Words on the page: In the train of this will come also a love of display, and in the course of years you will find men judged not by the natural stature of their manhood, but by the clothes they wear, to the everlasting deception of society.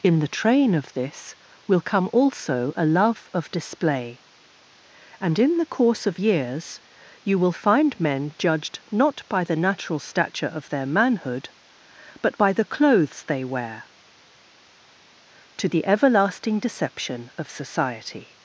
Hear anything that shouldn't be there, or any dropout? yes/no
no